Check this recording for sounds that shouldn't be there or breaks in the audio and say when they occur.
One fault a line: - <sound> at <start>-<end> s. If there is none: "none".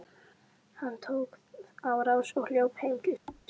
- thud at 3.3-3.5 s